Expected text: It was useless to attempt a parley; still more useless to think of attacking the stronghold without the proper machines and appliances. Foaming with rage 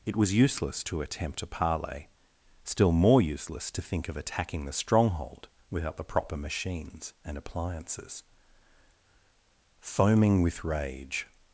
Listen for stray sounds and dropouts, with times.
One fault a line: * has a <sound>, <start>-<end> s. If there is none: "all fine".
all fine